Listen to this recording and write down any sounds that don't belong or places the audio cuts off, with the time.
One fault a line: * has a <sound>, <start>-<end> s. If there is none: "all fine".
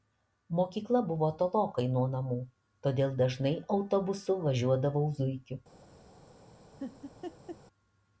* has a laugh, 6.8-7.6 s